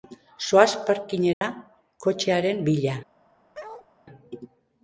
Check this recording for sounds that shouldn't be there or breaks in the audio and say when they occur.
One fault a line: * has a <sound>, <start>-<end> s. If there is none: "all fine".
* has a dropout, 1.3-1.4 s
* has a bark, 3.5-3.9 s